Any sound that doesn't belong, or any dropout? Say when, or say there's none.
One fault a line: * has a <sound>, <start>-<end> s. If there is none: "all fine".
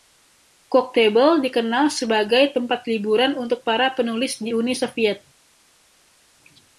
all fine